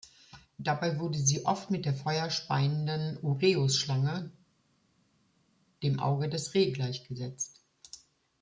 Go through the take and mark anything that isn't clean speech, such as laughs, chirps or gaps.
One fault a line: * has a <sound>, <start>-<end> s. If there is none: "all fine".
all fine